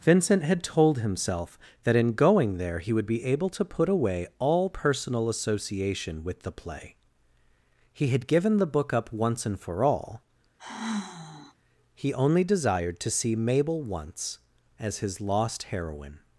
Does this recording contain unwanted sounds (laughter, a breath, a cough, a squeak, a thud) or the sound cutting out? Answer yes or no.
yes